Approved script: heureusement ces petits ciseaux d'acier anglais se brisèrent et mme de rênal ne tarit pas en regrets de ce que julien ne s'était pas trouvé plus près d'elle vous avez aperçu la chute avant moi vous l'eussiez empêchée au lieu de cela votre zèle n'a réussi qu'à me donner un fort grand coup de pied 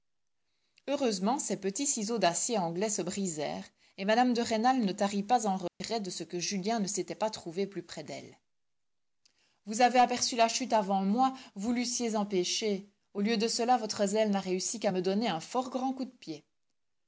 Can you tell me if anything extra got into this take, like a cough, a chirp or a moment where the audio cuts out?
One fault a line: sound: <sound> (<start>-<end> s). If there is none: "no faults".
sound: dropout (5.7-5.8 s)